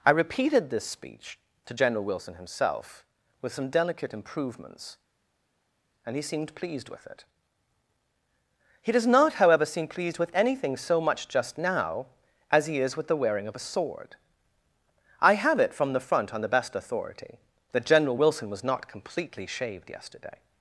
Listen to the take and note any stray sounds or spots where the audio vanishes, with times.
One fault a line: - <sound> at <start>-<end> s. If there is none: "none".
none